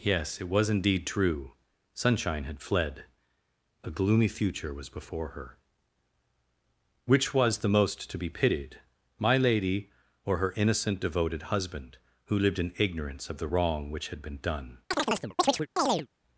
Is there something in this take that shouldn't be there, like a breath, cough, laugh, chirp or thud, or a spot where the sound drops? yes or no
yes